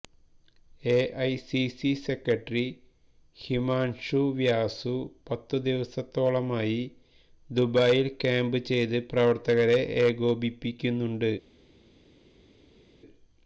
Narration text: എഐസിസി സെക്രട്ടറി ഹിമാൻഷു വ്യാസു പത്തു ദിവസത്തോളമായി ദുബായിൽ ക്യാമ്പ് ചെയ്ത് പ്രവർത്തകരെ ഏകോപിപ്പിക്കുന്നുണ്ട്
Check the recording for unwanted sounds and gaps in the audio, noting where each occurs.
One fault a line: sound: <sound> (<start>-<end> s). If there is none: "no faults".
no faults